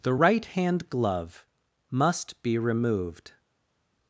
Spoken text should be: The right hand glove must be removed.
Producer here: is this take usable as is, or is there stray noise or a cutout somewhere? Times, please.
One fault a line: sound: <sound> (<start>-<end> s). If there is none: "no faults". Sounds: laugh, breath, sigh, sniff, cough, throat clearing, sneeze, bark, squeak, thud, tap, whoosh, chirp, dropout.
no faults